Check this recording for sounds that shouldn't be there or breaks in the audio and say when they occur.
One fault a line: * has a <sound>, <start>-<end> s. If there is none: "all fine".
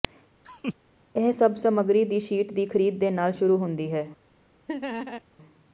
* has a laugh, 0.4-0.7 s
* has a laugh, 4.7-5.2 s